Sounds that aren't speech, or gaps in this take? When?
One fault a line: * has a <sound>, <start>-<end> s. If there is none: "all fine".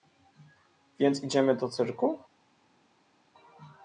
all fine